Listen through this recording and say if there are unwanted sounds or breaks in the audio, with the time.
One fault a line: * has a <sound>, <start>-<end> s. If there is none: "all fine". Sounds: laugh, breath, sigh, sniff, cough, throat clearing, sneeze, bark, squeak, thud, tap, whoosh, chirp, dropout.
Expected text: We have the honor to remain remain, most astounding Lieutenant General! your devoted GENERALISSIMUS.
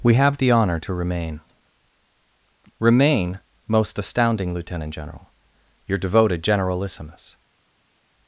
all fine